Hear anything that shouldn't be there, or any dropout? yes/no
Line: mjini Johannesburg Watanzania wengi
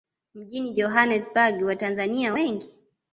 no